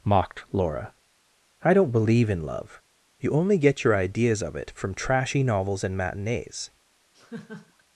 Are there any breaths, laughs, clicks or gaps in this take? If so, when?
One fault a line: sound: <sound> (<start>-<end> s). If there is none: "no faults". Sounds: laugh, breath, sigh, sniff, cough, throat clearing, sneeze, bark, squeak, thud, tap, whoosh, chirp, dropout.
sound: laugh (7.1-7.8 s)